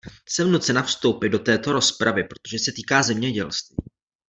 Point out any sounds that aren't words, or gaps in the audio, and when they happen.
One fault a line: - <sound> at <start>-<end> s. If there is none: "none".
none